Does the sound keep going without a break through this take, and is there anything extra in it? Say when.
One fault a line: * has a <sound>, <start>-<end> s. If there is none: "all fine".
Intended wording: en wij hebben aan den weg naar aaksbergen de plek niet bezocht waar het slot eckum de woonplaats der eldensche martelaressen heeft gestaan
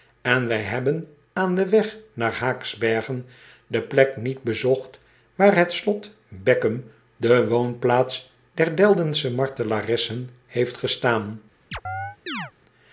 * has a chirp, 11.7-12.5 s